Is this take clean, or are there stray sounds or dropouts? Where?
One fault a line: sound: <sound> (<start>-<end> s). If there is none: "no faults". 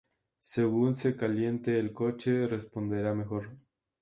no faults